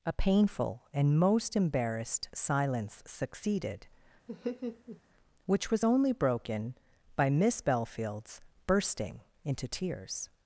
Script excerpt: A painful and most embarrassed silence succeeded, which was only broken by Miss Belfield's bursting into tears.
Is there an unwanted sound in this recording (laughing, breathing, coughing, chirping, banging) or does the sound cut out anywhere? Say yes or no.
yes